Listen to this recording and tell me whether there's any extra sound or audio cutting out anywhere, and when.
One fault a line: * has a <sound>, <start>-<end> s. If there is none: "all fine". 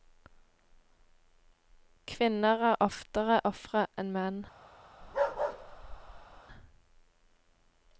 * has a bark, 5.0-6.4 s